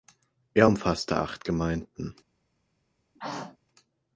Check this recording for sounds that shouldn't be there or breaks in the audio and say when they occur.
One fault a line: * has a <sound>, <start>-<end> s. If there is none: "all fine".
* has a throat clearing, 3.2-3.6 s